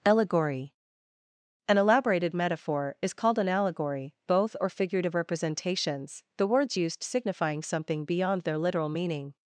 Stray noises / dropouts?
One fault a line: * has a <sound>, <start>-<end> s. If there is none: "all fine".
all fine